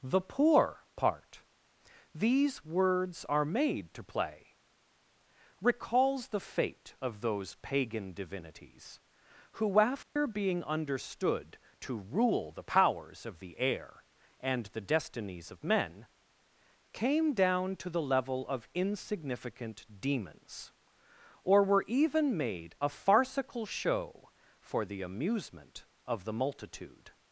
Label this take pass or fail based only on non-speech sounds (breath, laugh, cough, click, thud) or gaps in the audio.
fail